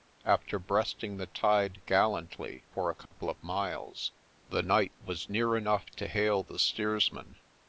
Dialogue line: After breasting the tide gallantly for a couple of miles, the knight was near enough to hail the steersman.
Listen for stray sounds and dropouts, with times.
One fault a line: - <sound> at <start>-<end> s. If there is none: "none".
- dropout at 3.1-3.1 s